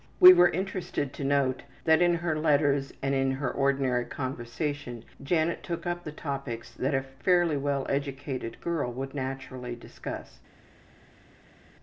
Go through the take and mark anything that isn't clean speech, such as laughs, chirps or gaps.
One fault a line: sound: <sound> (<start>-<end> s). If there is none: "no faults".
no faults